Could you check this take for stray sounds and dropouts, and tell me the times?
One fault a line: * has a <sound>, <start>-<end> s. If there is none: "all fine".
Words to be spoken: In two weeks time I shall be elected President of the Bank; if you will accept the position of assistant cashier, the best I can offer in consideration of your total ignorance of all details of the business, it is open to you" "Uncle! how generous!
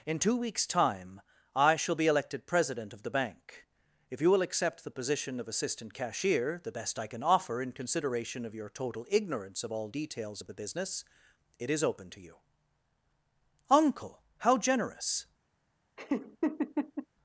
* has a laugh, 16.0-17.1 s